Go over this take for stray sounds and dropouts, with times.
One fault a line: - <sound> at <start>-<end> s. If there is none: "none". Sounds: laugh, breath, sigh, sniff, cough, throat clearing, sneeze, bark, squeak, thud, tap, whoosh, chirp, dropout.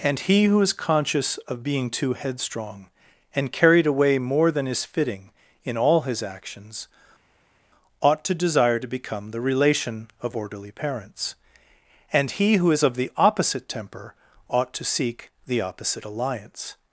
none